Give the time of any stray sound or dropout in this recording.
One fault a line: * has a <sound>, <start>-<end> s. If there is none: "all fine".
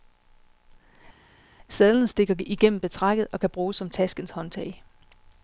all fine